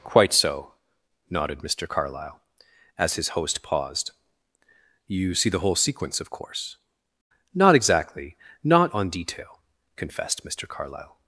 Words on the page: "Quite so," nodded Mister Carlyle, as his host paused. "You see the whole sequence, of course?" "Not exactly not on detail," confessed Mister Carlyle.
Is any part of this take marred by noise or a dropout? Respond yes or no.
no